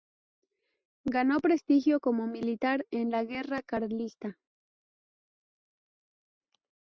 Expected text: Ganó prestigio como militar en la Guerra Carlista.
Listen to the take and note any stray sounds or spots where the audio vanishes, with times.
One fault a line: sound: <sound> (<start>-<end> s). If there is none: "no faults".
no faults